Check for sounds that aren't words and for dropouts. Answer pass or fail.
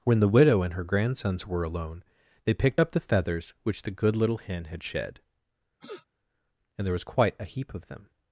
fail